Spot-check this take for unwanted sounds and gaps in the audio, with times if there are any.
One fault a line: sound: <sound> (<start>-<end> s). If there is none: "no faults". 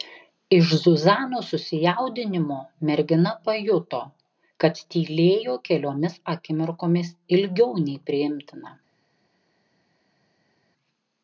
no faults